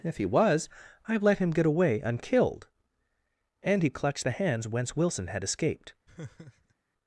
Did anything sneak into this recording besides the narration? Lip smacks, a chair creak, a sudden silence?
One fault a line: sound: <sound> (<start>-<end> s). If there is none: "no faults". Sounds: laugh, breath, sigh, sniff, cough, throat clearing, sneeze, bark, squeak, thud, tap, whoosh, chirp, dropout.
sound: laugh (6.1-6.7 s)